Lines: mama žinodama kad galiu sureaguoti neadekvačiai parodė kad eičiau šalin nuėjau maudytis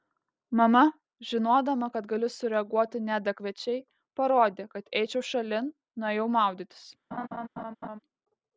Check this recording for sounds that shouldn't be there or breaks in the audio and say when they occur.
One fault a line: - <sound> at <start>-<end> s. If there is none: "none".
- laugh at 7.1-8.0 s